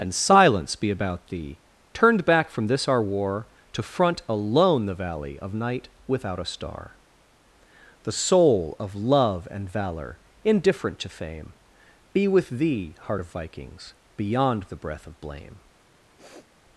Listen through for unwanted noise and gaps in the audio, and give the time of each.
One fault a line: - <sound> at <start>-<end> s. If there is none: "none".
- sniff at 16.2-16.5 s